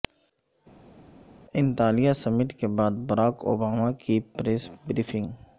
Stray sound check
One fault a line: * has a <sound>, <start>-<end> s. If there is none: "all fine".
all fine